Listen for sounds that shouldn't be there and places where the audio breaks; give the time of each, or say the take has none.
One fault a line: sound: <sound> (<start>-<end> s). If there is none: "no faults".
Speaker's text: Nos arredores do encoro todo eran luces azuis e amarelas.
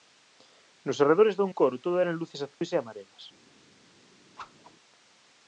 sound: dropout (2.5-2.6 s)
sound: whoosh (4.4-4.8 s)